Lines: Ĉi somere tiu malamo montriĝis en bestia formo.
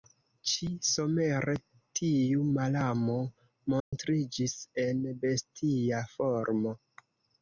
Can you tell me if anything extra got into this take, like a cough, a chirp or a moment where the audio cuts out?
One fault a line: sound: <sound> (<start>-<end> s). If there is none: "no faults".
sound: dropout (3.8-3.9 s)